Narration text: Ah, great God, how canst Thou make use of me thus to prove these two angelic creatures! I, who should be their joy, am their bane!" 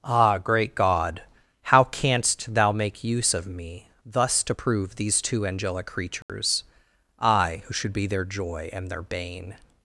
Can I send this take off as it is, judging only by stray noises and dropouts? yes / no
no